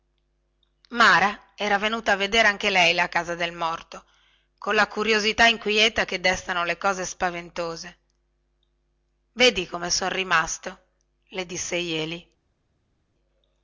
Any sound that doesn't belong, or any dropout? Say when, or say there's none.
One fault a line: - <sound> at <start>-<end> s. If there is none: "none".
none